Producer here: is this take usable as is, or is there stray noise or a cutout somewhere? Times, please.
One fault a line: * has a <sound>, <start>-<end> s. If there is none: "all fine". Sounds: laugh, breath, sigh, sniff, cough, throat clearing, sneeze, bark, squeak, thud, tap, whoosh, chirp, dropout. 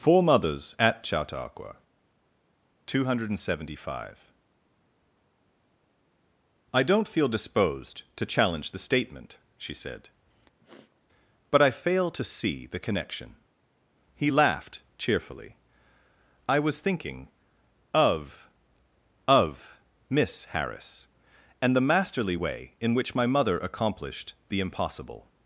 * has a sniff, 10.6-11.0 s